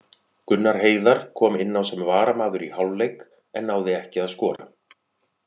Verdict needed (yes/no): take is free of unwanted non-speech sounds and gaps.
no